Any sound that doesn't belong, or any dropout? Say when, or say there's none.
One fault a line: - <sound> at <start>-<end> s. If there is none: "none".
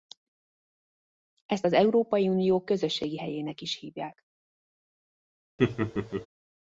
- laugh at 5.6-6.3 s